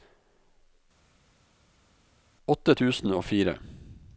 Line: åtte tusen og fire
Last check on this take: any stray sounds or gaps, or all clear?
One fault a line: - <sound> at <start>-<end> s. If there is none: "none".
none